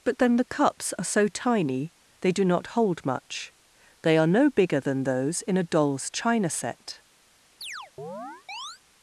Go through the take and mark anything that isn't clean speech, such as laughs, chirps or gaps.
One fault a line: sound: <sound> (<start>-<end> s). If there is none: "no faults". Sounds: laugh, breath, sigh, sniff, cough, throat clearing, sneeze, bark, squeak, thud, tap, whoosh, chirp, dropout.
sound: chirp (7.6-8.8 s)